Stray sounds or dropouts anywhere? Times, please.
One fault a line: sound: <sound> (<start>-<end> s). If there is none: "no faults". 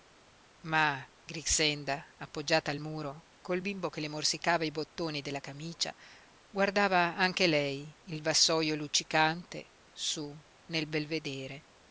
no faults